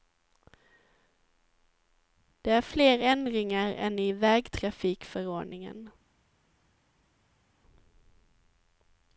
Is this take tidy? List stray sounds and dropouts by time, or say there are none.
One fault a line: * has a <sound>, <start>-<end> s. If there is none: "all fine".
all fine